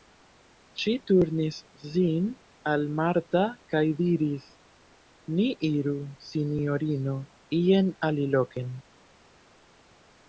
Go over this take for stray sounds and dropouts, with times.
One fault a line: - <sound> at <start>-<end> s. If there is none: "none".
none